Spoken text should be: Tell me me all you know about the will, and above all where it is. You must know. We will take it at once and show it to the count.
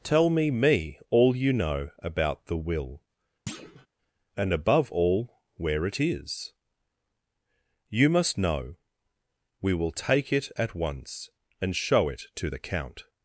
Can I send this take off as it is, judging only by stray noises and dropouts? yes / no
no